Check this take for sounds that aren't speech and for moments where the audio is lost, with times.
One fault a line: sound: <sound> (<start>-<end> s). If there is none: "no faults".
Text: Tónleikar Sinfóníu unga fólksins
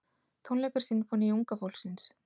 no faults